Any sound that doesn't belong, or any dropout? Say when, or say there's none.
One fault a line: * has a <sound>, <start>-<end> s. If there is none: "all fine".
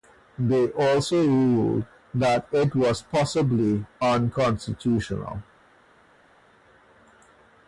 all fine